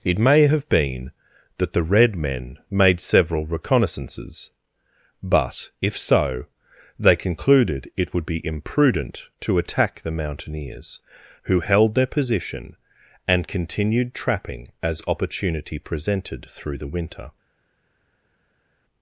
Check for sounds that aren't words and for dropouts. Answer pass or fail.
pass